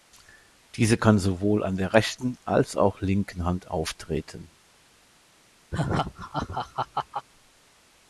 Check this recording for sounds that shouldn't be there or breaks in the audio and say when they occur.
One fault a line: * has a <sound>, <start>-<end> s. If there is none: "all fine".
* has a laugh, 5.7-7.3 s